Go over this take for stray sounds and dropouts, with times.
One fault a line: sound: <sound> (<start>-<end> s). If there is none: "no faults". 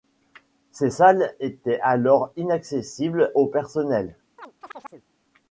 sound: chirp (4.4-5.1 s)